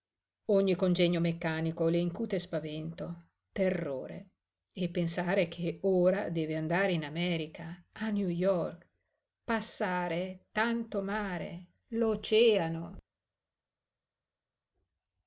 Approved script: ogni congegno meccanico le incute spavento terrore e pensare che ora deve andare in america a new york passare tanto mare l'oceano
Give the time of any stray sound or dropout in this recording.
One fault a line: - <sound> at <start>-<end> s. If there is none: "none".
none